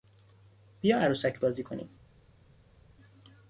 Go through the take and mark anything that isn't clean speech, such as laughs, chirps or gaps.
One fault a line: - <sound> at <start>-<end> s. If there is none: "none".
none